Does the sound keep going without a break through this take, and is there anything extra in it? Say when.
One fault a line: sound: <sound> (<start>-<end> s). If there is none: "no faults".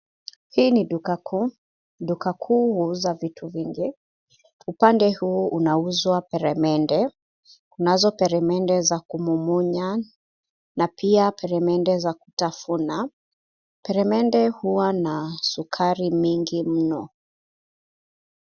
no faults